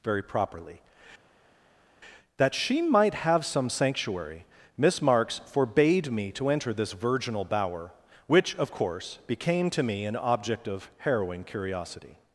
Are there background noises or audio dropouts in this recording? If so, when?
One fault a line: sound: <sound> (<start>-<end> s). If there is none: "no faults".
no faults